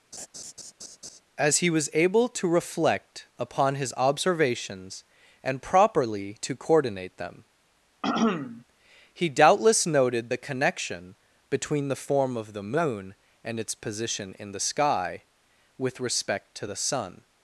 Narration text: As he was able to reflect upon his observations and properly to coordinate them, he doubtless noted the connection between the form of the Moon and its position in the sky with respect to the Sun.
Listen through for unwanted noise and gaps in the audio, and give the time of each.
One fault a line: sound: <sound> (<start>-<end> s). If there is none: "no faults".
sound: laugh (0.1-1.2 s)
sound: throat clearing (8.0-8.6 s)